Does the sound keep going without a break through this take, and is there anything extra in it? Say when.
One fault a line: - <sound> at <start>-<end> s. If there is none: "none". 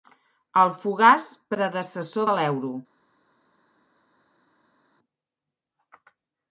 none